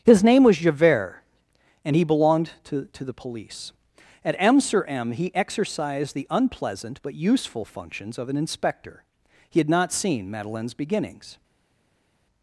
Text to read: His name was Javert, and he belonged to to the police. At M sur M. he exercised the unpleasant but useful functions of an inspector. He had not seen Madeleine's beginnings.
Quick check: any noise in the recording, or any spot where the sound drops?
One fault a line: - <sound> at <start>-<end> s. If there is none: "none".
none